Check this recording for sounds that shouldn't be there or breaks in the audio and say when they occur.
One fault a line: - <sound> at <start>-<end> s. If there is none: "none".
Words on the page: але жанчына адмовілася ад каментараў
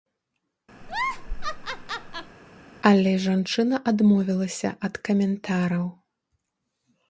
- laugh at 0.8-2.4 s